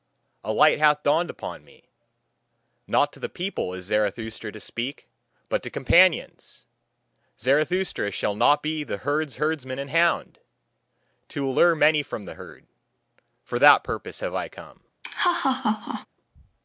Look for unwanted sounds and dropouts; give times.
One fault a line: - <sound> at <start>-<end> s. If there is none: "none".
- laugh at 15.0-16.1 s